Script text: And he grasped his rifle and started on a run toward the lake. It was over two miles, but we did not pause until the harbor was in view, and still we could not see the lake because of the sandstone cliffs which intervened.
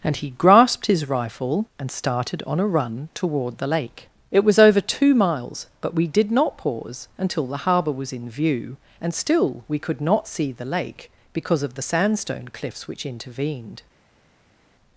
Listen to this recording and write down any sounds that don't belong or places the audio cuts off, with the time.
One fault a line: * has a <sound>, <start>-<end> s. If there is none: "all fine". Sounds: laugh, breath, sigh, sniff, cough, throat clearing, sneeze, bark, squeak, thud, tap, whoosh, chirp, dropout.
all fine